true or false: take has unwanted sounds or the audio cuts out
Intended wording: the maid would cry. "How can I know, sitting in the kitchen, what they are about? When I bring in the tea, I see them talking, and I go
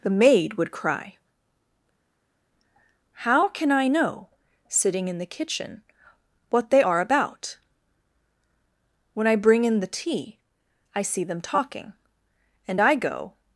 false